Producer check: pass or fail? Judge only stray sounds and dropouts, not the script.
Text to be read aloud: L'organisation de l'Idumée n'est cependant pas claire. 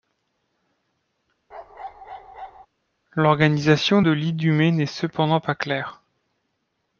fail